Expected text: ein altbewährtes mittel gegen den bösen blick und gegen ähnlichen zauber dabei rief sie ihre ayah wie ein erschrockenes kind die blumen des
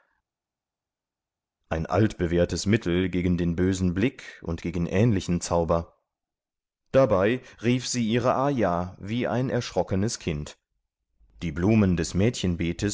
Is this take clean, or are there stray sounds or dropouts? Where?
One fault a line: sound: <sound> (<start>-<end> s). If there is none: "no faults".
no faults